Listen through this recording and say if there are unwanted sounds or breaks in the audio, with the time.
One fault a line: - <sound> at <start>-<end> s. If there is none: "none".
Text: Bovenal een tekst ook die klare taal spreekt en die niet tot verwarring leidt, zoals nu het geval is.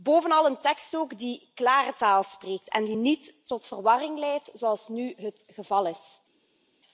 none